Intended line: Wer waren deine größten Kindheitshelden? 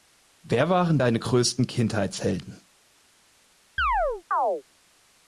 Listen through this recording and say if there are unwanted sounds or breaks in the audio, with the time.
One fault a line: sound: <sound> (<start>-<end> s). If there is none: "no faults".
sound: chirp (3.8-4.6 s)